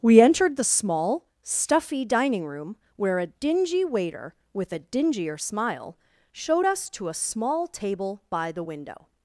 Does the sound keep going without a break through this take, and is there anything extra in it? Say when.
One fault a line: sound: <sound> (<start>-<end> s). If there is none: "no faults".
no faults